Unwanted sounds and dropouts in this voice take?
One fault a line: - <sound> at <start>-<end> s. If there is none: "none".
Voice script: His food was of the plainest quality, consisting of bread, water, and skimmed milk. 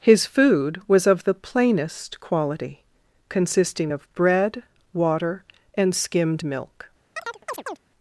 - chirp at 7.2-7.8 s